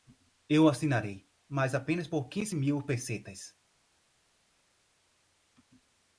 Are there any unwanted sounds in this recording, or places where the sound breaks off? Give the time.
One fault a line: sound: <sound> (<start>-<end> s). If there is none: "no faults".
no faults